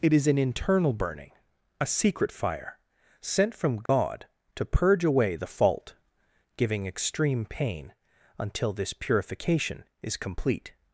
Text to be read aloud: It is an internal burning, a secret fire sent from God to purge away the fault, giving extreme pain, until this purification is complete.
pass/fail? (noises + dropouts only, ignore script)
fail